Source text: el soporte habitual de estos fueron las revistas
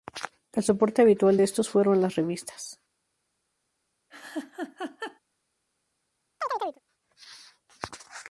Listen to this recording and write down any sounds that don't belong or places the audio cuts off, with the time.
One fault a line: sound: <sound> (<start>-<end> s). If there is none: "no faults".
sound: laugh (4.1-5.2 s)
sound: chirp (6.4-6.8 s)